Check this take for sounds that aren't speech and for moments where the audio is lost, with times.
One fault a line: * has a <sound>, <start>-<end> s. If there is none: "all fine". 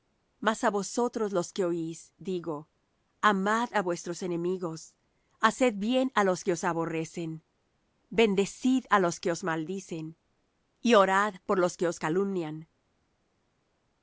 all fine